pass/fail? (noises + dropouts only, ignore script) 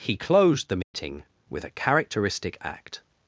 fail